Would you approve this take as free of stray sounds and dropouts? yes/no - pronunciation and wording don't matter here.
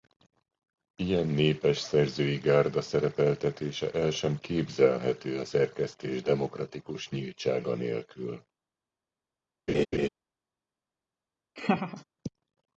no